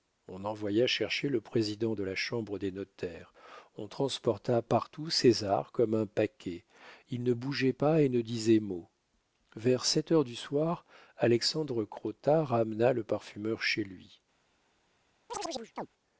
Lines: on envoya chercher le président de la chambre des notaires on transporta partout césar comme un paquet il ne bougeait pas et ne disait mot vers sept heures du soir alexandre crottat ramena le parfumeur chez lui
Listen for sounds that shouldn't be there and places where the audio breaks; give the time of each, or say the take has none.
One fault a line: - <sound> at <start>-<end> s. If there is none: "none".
- chirp at 15.3-15.9 s